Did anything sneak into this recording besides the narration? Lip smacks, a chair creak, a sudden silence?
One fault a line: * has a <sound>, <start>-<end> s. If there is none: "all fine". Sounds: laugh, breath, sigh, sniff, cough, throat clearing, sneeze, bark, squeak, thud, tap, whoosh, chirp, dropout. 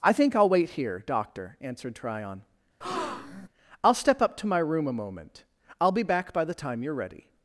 * has a breath, 2.8-3.5 s